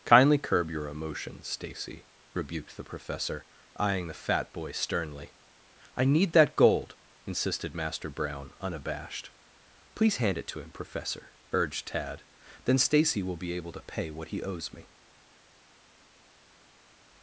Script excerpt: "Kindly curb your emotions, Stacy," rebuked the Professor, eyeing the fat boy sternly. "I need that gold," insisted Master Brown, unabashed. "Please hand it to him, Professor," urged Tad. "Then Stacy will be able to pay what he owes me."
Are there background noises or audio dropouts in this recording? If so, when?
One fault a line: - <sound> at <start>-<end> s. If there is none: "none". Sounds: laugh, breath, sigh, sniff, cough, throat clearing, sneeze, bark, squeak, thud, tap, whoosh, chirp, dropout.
none